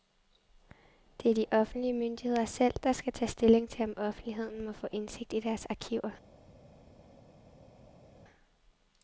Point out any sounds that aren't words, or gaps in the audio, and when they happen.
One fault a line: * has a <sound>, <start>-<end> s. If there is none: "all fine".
all fine